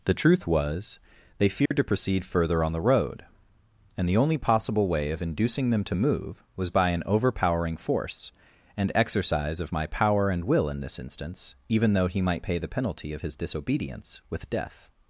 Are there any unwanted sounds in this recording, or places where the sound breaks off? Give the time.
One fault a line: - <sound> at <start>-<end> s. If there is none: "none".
- dropout at 1.7-1.7 s